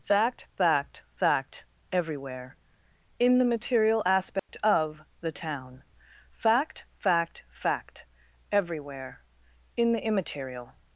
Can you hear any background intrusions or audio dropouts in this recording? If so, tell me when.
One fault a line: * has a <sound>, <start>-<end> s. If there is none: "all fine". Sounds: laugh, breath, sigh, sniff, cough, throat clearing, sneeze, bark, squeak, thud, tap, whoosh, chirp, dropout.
* has a dropout, 4.4-4.5 s